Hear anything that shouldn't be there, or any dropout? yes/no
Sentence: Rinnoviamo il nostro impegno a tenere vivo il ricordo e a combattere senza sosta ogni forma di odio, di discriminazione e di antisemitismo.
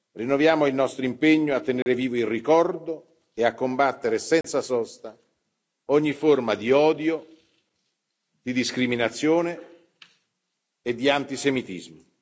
yes